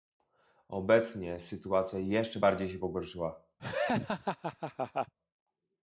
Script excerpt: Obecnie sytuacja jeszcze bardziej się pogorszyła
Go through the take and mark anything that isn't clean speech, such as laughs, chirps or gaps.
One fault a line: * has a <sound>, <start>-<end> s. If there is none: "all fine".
* has a laugh, 3.6-5.1 s